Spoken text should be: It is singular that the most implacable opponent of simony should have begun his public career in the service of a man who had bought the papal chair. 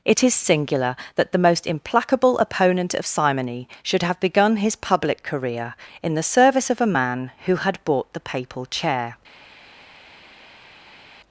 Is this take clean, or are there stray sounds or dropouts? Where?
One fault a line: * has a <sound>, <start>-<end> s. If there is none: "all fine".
all fine